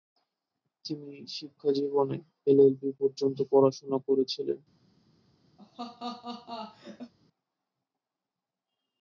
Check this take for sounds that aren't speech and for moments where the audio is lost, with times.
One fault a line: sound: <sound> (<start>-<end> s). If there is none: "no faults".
sound: laugh (5.6-7.1 s)